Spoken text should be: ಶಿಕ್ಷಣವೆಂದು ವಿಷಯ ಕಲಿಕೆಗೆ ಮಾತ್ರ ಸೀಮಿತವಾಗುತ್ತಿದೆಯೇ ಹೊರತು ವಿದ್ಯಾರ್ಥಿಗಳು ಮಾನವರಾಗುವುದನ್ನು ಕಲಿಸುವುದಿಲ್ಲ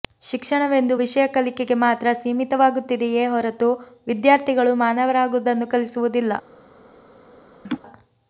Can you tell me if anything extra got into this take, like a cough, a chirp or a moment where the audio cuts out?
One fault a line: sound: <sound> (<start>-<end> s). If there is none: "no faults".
sound: laugh (7.6-7.8 s)